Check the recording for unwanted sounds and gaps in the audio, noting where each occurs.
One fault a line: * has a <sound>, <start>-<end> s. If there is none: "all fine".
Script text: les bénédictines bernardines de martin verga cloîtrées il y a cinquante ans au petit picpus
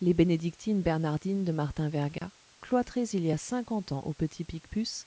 * has a dropout, 2.2-2.2 s